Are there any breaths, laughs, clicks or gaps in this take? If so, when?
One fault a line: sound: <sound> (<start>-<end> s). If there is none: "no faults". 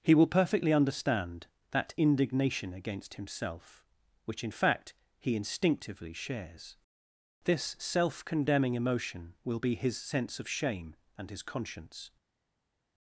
no faults